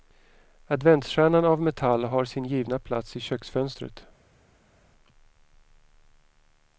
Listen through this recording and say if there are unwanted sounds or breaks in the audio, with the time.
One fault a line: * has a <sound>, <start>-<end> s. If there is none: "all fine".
all fine